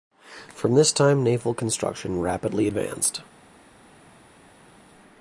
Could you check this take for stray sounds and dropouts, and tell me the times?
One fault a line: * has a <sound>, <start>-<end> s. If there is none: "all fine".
all fine